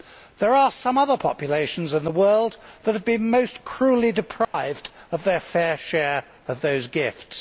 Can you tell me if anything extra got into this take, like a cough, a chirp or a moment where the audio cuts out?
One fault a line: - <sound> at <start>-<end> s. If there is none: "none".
- dropout at 4.4-4.5 s